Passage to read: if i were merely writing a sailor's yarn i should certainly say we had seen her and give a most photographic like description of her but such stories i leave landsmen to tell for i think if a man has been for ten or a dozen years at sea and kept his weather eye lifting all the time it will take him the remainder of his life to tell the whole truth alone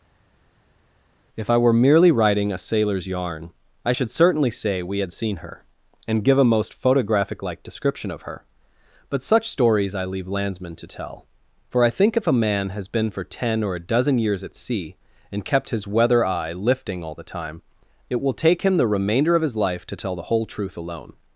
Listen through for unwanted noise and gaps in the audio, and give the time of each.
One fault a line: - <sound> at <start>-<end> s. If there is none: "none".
none